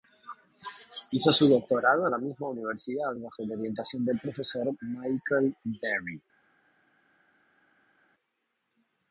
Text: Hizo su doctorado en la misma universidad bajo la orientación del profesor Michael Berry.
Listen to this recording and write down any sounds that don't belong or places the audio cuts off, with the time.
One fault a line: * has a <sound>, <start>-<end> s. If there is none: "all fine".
all fine